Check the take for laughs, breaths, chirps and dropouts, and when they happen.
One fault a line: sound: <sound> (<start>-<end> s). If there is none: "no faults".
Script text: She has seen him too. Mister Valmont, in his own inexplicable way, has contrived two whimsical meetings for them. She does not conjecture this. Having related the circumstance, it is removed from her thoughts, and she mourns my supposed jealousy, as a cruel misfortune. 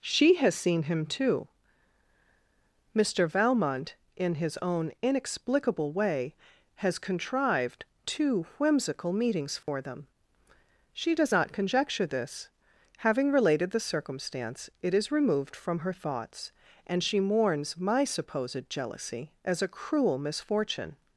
sound: dropout (9.6-9.7 s)